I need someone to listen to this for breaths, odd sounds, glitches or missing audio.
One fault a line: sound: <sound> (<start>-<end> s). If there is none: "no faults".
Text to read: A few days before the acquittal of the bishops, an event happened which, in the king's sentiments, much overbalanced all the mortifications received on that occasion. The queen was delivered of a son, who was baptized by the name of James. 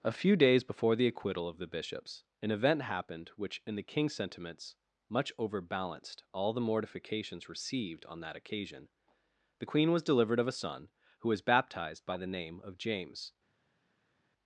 no faults